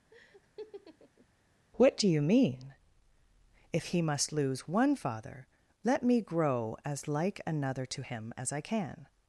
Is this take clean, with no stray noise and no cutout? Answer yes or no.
no